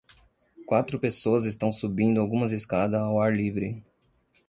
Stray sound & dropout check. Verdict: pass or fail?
pass